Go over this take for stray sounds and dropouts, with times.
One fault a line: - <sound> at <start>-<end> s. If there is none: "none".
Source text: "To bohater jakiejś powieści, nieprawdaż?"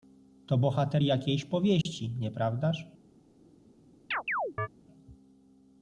- dropout at 1.8-1.9 s
- chirp at 4.1-4.7 s